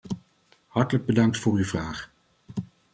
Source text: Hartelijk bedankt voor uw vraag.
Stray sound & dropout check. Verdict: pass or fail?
pass